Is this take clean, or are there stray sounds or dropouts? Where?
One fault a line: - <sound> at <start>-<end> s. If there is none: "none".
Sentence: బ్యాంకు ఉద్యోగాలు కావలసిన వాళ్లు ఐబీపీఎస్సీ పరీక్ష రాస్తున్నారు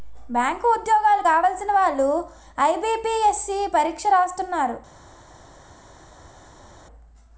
none